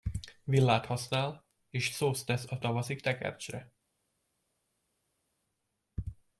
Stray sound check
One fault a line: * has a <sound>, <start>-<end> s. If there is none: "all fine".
all fine